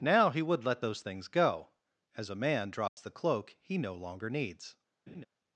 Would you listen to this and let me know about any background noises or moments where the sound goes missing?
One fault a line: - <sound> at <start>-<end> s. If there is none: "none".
- dropout at 2.9-3.0 s
- laugh at 5.1-5.3 s